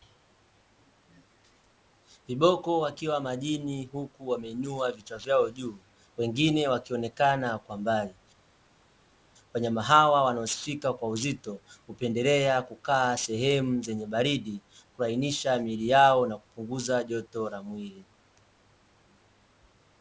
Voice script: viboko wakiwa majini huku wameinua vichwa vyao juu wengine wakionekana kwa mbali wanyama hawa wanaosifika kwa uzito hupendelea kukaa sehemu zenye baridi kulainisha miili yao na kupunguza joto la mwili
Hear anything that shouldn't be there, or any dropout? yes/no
no